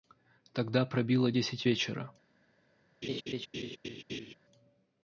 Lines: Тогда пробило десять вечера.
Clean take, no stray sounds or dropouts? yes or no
no